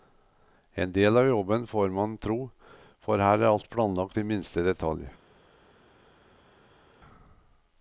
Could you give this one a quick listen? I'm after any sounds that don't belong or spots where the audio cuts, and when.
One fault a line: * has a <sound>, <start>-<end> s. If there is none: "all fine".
all fine